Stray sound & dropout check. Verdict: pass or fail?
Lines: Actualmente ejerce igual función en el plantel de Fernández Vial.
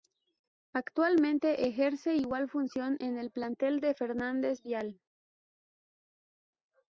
pass